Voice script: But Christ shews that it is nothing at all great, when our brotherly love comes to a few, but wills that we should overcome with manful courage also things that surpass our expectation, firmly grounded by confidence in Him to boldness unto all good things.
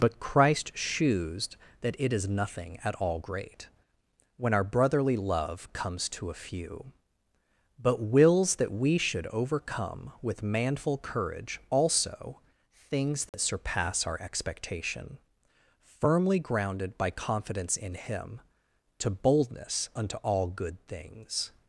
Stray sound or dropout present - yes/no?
yes